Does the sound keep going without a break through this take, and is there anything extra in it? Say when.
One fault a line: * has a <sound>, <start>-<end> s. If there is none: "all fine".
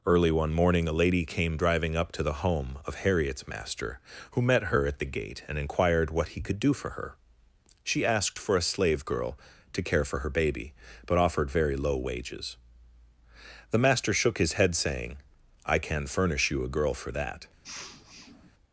* has a sniff, 17.6-18.5 s